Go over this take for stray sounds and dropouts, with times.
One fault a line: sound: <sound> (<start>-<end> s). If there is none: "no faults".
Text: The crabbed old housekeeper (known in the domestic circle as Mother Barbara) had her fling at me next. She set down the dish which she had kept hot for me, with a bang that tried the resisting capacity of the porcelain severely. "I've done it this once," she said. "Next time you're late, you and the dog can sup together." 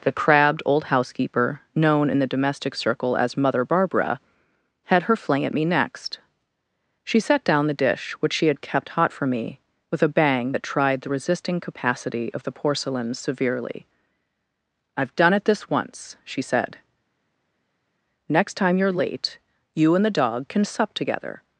no faults